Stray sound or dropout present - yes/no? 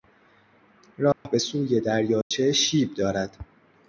yes